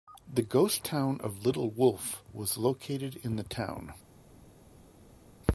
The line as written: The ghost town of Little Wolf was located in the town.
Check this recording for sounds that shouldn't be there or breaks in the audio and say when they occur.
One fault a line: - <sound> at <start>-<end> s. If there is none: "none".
none